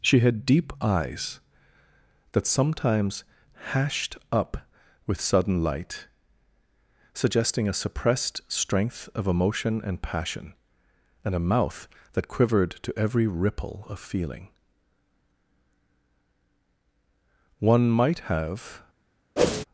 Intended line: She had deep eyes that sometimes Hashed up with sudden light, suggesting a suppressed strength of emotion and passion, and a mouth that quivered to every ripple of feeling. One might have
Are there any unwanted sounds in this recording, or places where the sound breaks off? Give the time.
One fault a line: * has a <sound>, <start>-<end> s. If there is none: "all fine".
* has a whoosh, 19.4-19.6 s